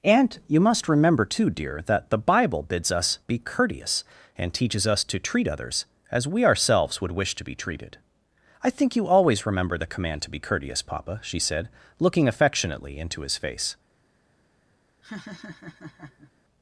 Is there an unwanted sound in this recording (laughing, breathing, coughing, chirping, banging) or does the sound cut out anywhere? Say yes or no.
yes